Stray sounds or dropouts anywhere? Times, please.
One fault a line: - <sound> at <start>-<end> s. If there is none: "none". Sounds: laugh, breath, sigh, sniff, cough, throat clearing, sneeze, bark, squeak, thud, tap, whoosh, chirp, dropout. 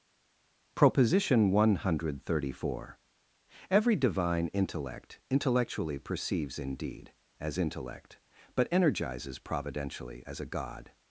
none